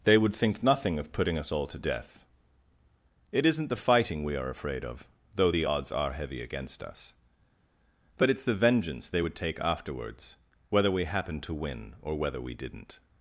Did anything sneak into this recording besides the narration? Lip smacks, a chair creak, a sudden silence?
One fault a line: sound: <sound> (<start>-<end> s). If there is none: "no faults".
no faults